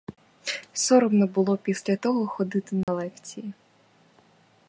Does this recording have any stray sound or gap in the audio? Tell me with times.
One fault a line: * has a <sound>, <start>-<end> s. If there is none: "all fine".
* has a dropout, 2.8-2.9 s